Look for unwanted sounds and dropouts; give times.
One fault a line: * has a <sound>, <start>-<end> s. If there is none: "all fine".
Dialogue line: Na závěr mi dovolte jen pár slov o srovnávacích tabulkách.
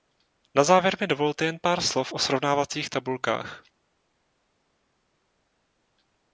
all fine